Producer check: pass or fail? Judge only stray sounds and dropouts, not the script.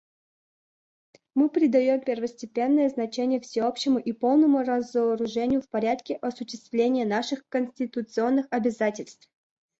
pass